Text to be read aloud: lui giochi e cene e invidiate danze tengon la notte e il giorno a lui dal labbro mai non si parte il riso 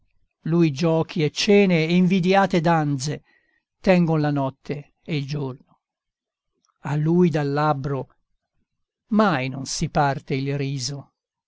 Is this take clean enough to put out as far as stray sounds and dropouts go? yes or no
yes